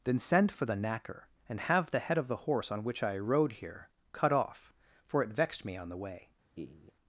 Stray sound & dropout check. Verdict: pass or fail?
fail